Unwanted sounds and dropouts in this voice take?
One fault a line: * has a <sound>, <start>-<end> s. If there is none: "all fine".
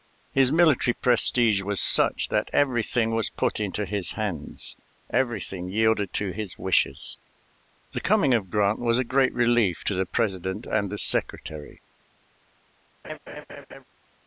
* has a laugh, 13.0-13.8 s